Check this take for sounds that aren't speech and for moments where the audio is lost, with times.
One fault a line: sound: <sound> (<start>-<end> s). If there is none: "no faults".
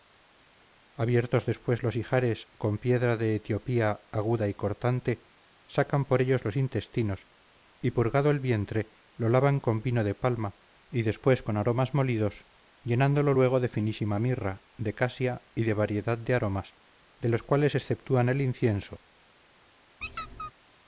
sound: squeak (20.0-20.5 s)